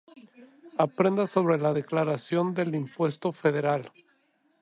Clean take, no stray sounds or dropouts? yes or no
yes